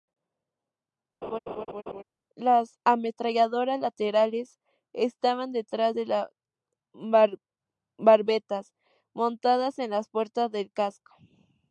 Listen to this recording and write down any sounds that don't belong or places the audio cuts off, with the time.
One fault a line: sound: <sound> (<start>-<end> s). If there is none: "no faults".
sound: laugh (1.2-2.0 s)